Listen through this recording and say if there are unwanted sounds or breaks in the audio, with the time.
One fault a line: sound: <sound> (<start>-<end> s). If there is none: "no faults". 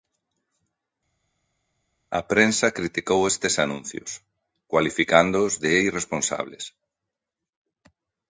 no faults